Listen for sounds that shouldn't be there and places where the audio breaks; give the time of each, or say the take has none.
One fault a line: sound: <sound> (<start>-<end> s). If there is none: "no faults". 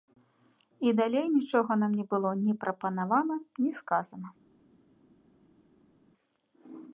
no faults